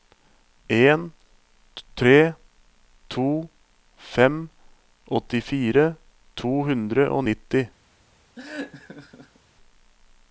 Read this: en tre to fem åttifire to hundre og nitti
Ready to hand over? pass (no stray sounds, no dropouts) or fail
fail